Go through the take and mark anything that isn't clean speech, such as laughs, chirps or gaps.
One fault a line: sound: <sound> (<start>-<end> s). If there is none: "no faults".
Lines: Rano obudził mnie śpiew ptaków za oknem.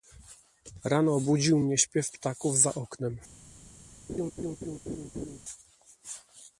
sound: laugh (4.1-5.4 s)